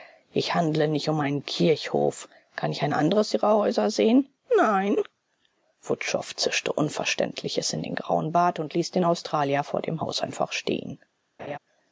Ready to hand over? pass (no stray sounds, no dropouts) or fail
fail